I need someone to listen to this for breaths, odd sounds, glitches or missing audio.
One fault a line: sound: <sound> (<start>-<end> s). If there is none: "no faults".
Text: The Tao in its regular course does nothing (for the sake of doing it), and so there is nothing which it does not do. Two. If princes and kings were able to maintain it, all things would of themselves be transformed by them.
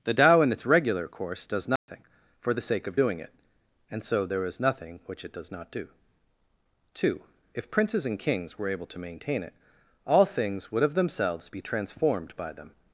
sound: dropout (1.8-1.9 s)